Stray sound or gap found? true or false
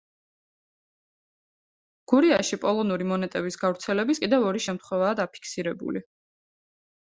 false